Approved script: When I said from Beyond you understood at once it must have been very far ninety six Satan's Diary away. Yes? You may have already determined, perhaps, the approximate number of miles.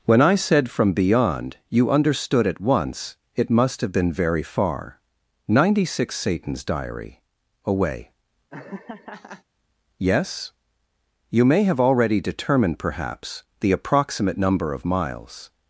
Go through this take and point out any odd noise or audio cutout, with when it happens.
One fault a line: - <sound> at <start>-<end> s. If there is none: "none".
- laugh at 8.5-9.4 s